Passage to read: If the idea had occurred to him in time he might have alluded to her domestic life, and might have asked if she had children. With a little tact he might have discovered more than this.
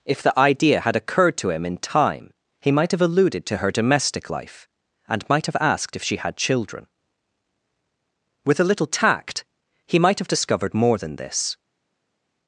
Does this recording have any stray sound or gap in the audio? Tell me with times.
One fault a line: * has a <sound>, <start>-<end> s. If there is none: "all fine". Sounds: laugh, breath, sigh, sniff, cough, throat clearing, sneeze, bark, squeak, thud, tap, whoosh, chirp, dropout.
all fine